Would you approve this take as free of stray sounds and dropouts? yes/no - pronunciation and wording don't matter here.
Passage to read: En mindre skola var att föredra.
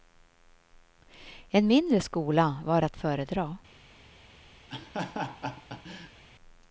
no